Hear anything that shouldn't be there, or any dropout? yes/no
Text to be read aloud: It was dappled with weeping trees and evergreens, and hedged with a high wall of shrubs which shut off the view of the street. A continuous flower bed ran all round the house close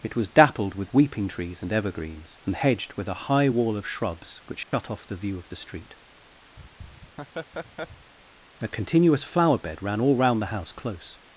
yes